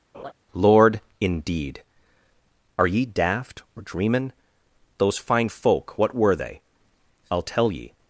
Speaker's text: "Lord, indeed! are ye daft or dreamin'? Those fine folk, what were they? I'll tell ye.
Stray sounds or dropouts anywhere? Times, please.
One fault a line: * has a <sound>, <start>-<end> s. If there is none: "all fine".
* has a laugh, 0.1-0.3 s